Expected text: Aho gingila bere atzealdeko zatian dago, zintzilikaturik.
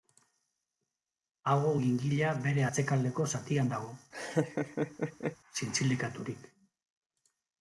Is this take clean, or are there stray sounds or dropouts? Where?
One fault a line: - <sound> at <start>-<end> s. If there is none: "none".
- laugh at 4.1-5.4 s